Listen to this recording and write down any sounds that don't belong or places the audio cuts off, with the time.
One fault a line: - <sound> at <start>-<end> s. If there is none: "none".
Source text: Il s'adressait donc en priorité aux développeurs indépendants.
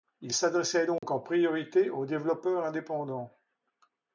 - dropout at 1.0-1.0 s